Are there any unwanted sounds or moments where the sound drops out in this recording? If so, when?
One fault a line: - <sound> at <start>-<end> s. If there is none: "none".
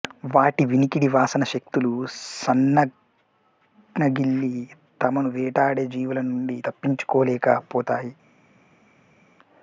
none